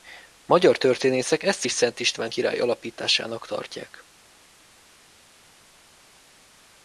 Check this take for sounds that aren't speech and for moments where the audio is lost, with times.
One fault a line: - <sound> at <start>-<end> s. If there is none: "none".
none